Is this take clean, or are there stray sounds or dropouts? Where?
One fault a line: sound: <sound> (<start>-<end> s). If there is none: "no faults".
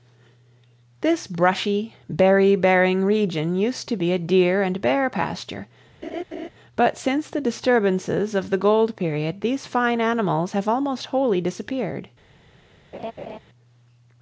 sound: laugh (6.0-6.5 s)
sound: laugh (12.9-13.4 s)